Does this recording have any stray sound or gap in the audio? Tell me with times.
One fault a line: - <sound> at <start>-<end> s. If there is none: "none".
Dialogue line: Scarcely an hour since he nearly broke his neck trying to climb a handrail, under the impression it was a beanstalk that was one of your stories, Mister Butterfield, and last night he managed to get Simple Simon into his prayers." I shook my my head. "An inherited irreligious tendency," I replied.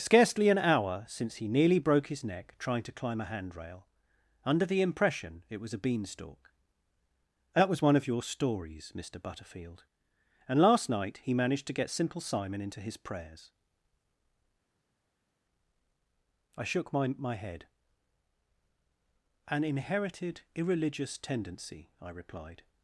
none